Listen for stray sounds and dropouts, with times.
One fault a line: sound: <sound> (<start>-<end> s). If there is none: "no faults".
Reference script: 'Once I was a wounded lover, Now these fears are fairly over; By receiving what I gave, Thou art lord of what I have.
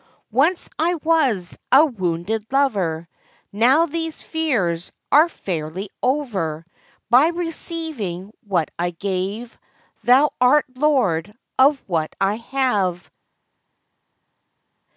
no faults